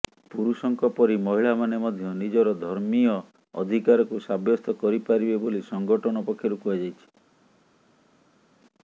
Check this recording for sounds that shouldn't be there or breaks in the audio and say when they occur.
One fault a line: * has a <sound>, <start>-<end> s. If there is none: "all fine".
all fine